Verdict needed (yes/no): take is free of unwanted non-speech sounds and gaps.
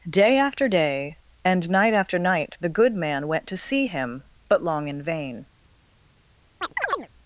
no